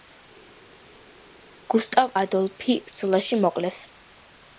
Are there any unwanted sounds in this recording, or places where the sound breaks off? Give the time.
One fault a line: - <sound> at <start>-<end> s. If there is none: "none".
none